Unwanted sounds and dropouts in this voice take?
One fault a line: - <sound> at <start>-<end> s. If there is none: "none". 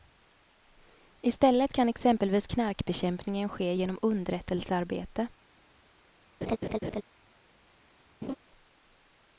- laugh at 6.4-7.0 s
- laugh at 8.2-8.4 s